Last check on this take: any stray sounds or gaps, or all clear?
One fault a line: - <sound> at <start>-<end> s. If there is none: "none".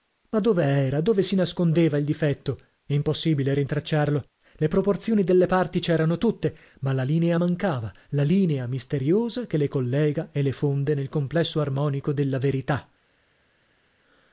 none